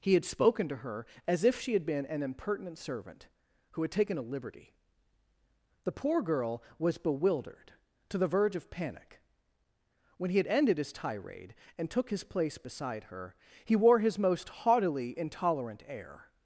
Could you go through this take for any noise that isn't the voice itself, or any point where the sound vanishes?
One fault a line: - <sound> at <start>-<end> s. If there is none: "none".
none